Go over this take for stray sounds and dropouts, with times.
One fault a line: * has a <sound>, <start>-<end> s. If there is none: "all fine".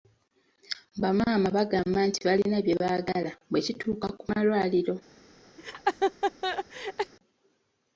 * has a laugh, 5.6-7.1 s